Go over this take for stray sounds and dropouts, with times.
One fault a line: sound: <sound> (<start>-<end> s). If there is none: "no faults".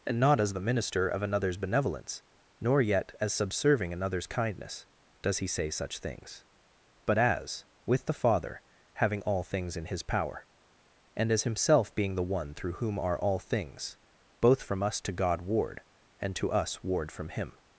no faults